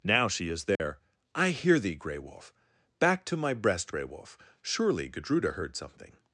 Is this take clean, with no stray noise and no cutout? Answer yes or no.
no